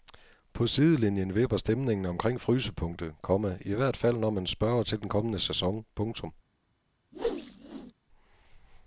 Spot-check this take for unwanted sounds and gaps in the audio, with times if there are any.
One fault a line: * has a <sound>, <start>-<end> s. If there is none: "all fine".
* has a whoosh, 7.1-7.9 s